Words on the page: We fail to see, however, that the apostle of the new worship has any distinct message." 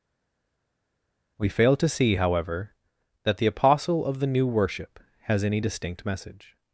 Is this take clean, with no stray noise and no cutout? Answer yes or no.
yes